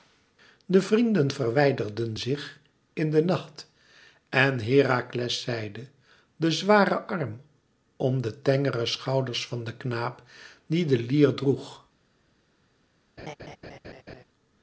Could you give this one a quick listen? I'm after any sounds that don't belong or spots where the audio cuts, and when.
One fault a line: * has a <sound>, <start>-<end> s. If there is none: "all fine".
* has a laugh, 13.2-14.2 s